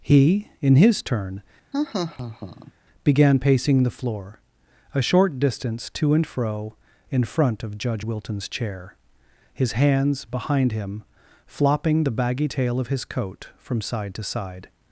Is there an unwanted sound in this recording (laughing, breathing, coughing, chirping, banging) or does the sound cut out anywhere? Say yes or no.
yes